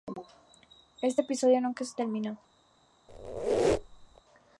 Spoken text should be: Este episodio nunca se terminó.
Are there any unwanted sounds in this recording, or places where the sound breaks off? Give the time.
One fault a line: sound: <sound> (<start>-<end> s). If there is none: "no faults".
sound: squeak (3.1-4.2 s)